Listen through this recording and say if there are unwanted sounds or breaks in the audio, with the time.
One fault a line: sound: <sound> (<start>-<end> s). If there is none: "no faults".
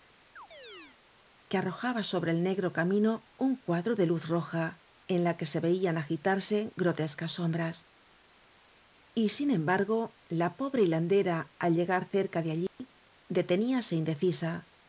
sound: chirp (0.4-1.0 s)
sound: dropout (12.7-12.8 s)